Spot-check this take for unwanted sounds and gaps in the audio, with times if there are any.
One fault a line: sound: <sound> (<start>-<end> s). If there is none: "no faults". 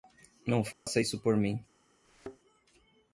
sound: dropout (0.7-0.9 s)
sound: thud (2.0-2.4 s)